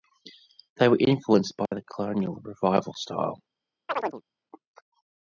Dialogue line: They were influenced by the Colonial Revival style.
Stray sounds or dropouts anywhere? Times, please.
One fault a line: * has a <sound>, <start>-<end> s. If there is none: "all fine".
* has a dropout, 1.7-1.7 s
* has a chirp, 3.9-4.2 s